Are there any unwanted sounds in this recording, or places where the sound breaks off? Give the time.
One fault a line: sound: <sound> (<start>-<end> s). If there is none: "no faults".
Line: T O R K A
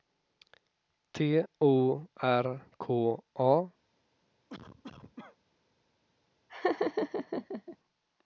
sound: cough (4.5-5.4 s)
sound: laugh (6.5-7.8 s)